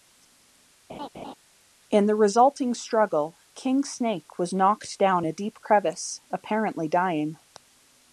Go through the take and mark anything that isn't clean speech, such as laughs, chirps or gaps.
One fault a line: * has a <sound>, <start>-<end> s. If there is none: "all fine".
* has a laugh, 0.9-1.3 s